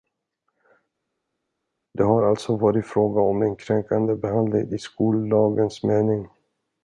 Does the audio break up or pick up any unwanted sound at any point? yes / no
no